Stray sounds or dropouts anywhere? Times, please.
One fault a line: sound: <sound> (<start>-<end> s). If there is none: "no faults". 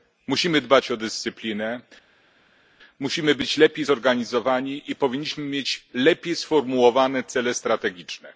no faults